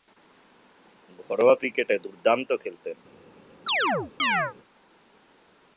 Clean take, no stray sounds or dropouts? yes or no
no